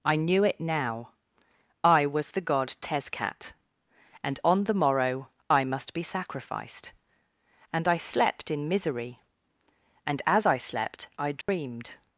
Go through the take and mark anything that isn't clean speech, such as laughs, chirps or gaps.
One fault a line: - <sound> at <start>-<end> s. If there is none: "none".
- dropout at 11.4-11.5 s